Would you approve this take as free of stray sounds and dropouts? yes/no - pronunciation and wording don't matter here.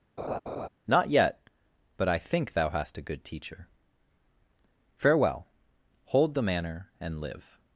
no